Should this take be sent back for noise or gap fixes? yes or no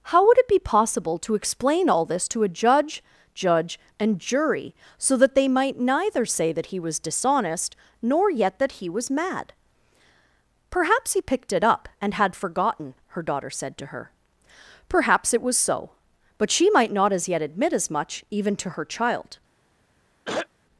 yes